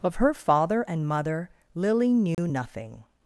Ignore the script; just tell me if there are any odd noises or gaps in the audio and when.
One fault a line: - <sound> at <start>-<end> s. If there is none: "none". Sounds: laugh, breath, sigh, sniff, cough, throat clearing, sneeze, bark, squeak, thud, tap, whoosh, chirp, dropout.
- dropout at 2.3-2.4 s